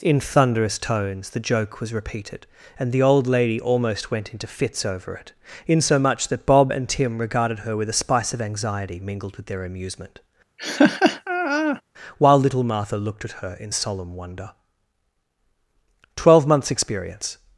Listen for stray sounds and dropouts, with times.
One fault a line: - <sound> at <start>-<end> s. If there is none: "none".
- laugh at 10.6-11.8 s